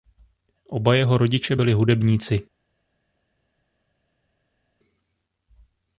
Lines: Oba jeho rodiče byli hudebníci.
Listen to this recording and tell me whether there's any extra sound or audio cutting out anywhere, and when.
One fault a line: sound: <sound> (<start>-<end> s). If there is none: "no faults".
no faults